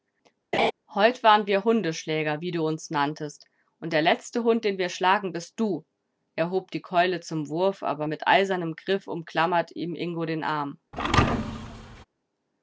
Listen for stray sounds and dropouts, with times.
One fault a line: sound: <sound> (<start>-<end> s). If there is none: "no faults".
sound: laugh (0.5-0.7 s)
sound: thud (10.9-12.0 s)